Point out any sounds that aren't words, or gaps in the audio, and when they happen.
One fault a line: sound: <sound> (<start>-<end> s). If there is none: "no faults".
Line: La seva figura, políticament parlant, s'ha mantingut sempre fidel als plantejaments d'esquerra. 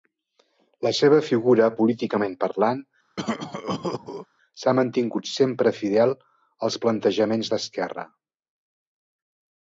sound: cough (3.2-4.3 s)